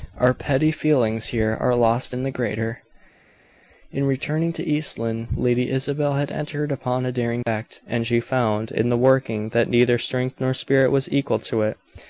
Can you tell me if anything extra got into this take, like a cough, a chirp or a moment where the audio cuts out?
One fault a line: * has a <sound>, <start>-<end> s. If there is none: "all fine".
all fine